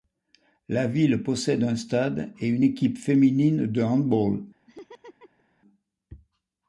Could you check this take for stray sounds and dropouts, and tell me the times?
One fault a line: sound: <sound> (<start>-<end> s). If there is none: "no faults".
sound: laugh (4.7-5.4 s)